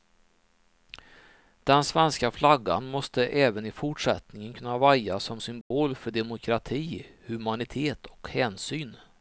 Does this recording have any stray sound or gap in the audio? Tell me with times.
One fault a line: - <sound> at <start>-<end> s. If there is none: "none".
- dropout at 5.6-5.7 s